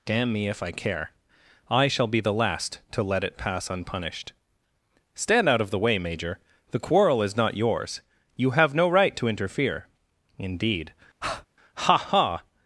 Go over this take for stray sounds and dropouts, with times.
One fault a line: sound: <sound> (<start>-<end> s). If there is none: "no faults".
sound: breath (11.2-11.5 s)